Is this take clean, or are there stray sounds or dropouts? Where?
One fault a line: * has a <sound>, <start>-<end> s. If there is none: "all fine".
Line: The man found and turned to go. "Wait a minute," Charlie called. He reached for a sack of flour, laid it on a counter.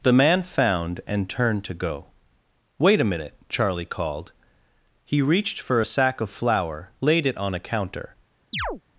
* has a chirp, 8.5-8.8 s